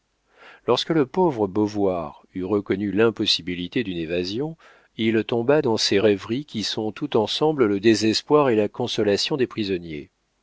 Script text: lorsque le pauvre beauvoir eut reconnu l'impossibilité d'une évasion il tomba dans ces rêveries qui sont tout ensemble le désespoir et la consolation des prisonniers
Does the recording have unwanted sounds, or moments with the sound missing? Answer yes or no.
no